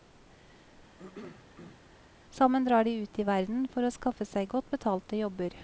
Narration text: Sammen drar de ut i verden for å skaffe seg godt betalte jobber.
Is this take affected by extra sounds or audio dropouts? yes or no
yes